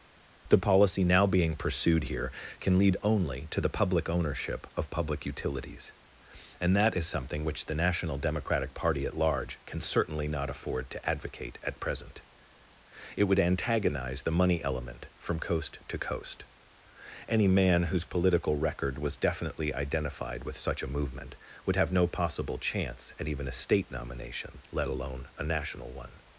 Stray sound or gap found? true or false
false